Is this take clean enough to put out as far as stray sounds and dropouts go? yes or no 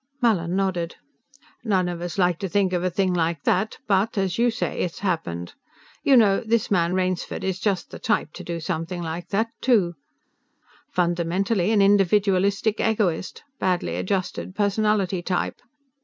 yes